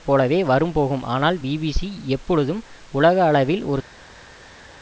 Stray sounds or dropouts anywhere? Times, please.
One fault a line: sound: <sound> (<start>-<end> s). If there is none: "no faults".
no faults